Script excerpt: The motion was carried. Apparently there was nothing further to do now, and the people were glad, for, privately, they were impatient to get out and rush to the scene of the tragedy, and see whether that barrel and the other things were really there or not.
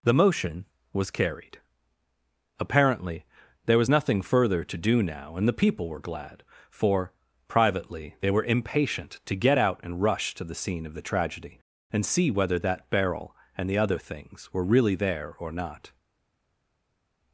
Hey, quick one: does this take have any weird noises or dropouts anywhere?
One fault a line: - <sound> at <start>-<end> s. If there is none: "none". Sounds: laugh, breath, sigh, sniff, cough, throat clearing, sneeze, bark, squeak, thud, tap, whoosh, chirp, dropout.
none